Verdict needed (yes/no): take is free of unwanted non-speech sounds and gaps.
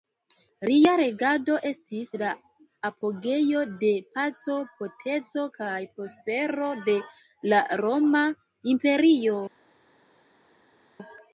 yes